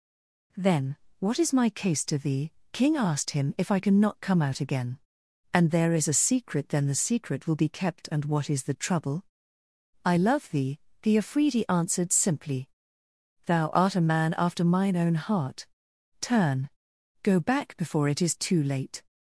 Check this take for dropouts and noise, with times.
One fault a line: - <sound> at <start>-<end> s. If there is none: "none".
none